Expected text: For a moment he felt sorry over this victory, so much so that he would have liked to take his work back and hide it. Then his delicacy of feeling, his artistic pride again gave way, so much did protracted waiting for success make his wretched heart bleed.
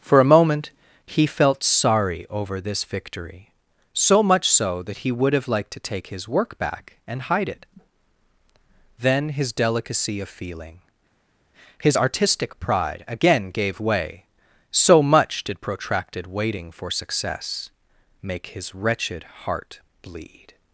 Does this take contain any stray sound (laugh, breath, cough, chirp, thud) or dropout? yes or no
no